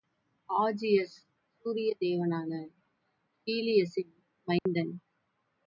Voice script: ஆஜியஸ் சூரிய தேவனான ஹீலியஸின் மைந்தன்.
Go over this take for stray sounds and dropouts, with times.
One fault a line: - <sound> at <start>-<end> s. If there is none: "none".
- dropout at 4.6-4.7 s